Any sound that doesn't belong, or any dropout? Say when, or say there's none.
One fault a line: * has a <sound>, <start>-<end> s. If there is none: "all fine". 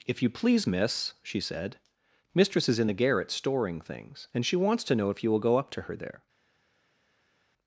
all fine